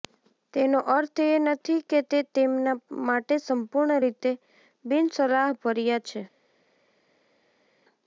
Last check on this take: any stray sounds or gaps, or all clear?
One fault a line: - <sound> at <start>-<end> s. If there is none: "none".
none